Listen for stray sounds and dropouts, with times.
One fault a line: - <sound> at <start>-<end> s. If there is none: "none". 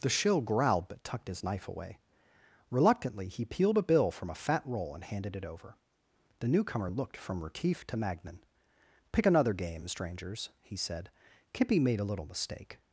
none